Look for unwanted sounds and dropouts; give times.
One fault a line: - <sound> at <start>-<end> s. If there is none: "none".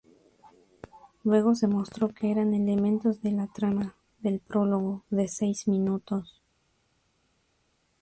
none